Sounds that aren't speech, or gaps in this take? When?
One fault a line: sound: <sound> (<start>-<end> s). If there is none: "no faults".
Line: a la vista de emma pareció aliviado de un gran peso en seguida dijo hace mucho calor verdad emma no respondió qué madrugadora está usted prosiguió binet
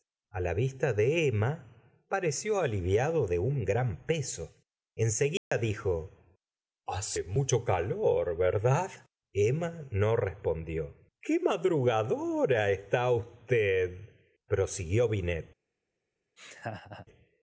sound: dropout (5.4-5.5 s)
sound: laugh (16.4-17.1 s)